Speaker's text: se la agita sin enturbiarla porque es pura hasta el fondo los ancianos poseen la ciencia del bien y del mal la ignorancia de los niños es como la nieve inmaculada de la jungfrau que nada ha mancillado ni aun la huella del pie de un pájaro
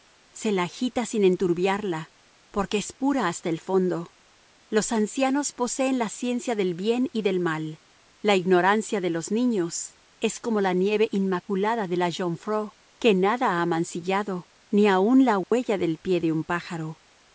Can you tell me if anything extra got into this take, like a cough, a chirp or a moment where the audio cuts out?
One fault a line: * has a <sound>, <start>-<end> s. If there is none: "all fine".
* has a dropout, 15.4-15.5 s